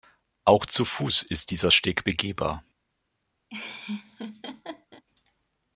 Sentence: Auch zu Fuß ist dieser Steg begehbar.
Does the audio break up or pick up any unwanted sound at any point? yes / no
yes